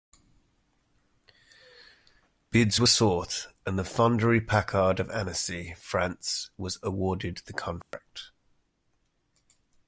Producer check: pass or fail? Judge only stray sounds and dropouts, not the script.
fail